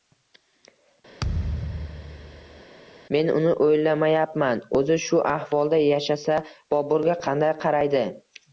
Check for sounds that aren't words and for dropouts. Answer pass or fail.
fail